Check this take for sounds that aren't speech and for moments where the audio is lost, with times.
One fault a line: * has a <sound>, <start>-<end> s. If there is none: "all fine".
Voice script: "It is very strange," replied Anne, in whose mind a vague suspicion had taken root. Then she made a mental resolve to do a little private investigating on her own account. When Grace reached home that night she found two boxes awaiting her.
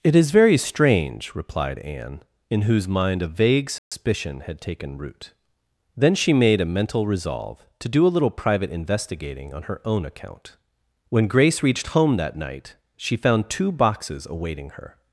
* has a dropout, 3.8-3.9 s